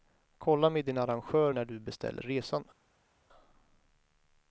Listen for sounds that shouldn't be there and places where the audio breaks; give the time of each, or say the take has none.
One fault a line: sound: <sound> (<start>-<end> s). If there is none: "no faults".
no faults